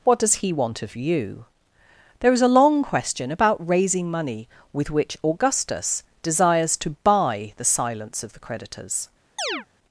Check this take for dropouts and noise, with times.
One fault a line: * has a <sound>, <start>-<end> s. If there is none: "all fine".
* has a chirp, 9.4-9.7 s